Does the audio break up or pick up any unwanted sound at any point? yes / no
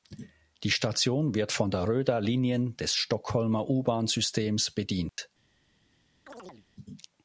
yes